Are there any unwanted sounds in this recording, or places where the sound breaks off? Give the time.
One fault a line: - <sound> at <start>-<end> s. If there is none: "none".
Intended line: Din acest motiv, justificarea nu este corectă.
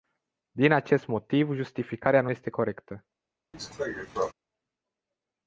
- cough at 3.5-4.3 s